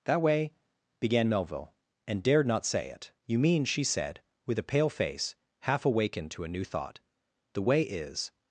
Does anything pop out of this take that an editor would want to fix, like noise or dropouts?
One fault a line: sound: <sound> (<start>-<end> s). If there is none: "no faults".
no faults